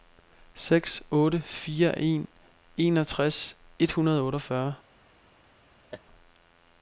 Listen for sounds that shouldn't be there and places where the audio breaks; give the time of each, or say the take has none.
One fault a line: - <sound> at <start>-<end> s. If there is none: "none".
- laugh at 5.9-6.0 s